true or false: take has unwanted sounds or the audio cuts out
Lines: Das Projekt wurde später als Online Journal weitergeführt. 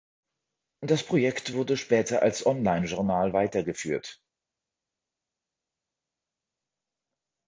false